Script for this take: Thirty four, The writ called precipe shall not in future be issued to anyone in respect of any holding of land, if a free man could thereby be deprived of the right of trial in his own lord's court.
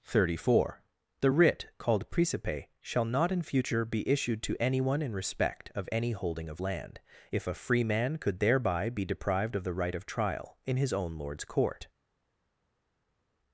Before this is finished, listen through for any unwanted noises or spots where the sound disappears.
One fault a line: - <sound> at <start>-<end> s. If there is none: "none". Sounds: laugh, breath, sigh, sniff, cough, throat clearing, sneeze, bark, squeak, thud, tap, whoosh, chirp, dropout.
none